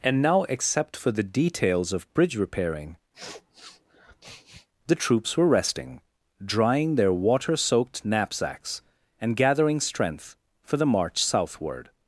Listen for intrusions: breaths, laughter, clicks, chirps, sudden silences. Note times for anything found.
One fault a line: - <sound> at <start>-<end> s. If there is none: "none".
- sniff at 3.1-4.7 s